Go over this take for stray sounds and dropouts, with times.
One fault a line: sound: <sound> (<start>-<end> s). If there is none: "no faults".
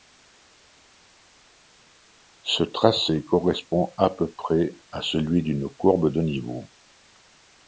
no faults